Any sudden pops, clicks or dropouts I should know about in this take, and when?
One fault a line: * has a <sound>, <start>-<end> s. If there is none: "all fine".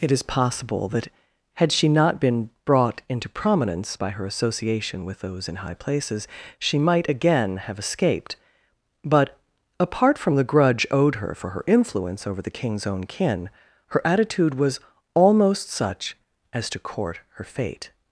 all fine